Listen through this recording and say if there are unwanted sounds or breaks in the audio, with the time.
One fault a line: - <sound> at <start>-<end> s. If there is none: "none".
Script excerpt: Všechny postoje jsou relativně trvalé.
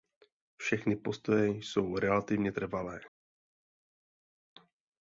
none